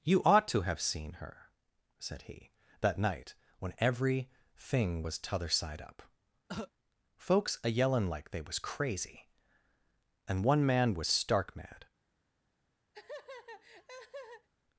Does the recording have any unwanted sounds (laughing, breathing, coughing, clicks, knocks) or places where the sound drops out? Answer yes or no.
yes